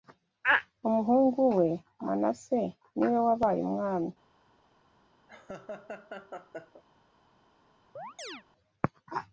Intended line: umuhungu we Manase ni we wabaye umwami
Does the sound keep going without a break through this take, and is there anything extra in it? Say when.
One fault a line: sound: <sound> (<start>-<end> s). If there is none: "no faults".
sound: laugh (5.3-6.8 s)
sound: chirp (8.0-8.4 s)